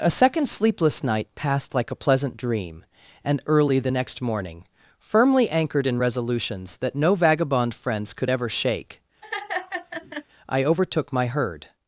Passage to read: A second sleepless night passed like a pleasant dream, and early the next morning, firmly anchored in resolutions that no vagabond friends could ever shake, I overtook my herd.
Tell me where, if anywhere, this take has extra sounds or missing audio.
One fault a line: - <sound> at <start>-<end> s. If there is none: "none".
- laugh at 9.2-10.3 s